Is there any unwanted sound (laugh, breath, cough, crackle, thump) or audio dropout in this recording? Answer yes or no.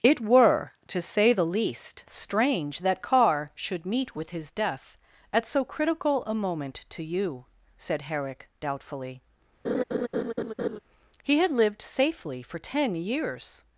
yes